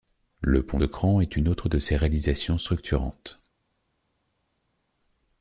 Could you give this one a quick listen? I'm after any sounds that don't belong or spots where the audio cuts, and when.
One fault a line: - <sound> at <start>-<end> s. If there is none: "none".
none